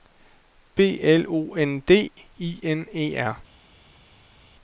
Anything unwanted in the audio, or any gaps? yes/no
no